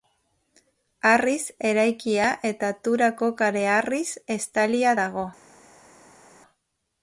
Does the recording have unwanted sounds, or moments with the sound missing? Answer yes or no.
no